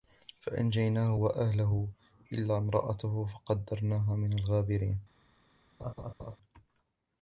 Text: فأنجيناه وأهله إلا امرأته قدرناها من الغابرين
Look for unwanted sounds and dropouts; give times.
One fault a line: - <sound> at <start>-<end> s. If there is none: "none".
- laugh at 5.8-6.4 s